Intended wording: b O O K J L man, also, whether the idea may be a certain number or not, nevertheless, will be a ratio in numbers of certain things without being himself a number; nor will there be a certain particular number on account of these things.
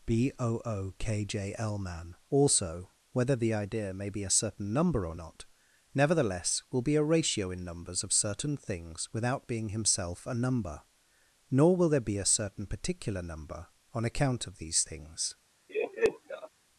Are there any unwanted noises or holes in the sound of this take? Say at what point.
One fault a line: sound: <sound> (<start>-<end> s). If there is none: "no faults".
sound: laugh (15.7-16.5 s)